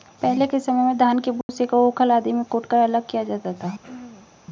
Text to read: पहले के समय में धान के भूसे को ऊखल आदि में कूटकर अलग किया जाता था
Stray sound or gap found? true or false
true